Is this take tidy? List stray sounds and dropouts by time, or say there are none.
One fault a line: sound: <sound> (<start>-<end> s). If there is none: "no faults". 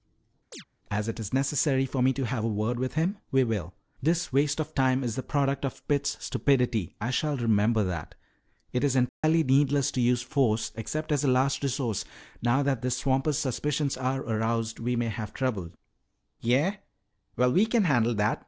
sound: chirp (0.5-0.6 s)
sound: dropout (9.1-9.2 s)